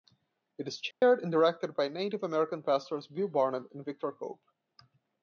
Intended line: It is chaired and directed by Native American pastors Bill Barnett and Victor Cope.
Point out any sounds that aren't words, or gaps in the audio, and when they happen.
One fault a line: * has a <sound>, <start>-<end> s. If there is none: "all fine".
* has a dropout, 0.9-1.0 s